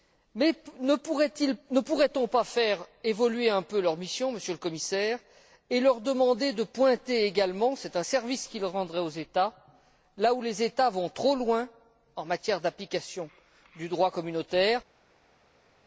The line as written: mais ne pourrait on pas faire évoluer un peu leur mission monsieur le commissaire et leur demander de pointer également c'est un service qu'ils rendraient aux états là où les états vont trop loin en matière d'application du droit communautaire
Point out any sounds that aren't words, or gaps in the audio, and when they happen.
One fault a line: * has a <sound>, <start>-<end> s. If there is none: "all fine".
all fine